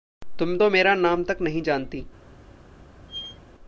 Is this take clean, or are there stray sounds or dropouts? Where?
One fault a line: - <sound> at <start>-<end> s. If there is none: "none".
- squeak at 3.1-3.4 s